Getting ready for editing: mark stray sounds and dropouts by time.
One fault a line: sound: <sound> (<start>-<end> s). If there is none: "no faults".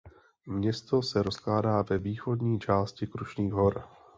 no faults